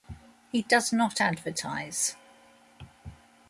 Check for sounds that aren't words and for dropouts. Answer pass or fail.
pass